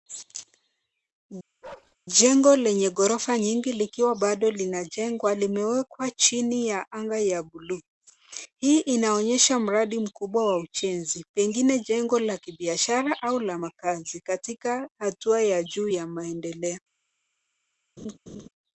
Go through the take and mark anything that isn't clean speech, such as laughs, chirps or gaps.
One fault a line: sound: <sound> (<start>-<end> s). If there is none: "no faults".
sound: bark (1.6-2.0 s)
sound: laugh (18.0-18.5 s)